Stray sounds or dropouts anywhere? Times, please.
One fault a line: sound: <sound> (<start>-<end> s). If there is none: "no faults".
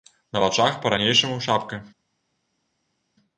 no faults